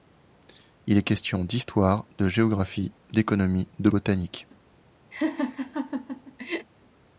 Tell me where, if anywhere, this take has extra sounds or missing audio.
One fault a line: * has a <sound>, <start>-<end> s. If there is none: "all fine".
* has a laugh, 5.1-6.7 s